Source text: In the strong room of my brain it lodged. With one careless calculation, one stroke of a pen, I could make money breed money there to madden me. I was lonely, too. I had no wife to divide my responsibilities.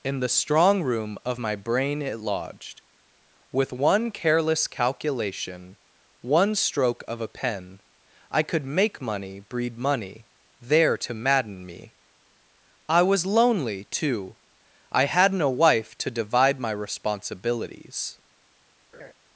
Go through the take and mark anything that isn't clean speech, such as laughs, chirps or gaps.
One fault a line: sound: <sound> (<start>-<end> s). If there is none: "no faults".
sound: laugh (18.9-19.1 s)